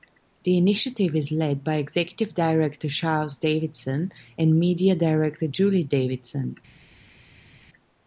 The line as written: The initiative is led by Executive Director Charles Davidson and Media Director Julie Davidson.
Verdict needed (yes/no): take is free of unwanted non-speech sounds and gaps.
yes